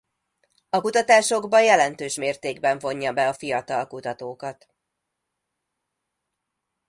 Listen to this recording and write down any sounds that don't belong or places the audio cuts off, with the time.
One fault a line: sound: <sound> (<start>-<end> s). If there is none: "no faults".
no faults